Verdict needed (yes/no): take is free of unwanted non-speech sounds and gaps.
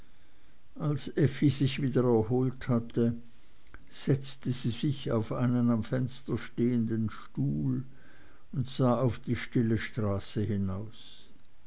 yes